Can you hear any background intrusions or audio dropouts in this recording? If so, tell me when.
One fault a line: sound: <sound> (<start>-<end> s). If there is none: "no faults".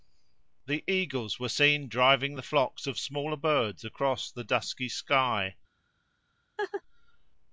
sound: laugh (6.6-6.8 s)